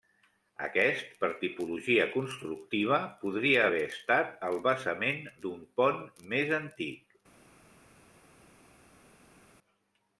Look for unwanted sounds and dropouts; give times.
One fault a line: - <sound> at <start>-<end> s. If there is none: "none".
none